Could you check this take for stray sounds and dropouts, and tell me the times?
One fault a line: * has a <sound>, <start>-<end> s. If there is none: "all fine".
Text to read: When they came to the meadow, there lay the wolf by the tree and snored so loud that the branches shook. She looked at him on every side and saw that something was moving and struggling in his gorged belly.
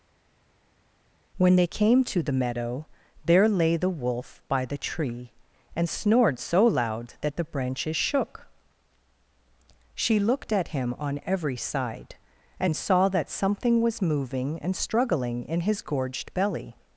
all fine